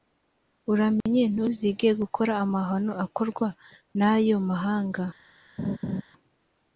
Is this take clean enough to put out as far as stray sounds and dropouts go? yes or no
no